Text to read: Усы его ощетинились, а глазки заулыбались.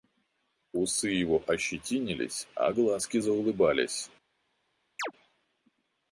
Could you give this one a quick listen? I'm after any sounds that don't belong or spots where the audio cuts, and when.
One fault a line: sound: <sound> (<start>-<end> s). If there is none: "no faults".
sound: chirp (5.0-5.1 s)